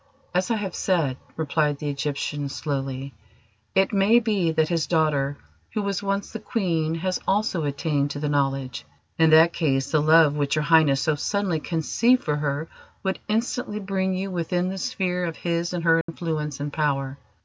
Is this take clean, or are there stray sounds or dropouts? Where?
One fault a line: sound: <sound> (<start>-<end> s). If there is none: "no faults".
sound: dropout (16.0-16.1 s)